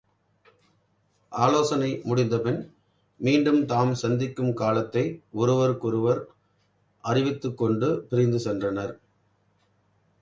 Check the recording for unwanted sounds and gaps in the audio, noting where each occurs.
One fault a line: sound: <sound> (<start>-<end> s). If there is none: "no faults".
no faults